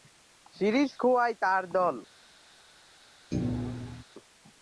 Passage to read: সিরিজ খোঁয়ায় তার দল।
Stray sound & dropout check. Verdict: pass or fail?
fail